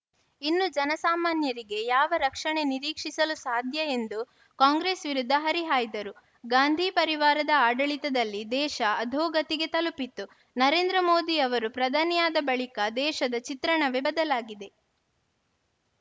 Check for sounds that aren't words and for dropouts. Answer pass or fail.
pass